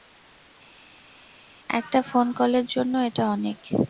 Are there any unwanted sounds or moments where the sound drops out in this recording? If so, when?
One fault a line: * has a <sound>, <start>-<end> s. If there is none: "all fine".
all fine